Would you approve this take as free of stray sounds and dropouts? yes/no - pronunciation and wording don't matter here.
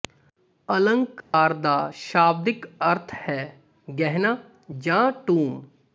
no